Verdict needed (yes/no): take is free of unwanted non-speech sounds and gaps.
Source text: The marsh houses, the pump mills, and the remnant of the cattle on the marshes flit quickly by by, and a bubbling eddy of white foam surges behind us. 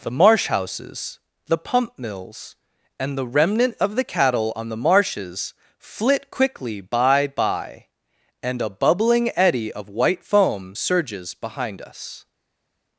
yes